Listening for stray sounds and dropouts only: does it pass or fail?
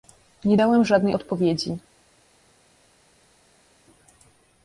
pass